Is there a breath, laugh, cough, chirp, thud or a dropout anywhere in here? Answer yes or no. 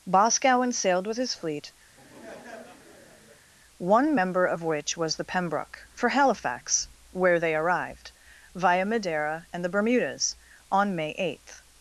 yes